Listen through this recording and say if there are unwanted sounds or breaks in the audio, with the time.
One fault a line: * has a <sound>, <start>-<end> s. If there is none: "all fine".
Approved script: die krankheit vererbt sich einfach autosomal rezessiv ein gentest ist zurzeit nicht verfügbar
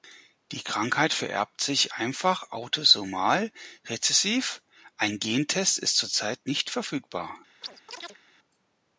* has a chirp, 7.6-8.2 s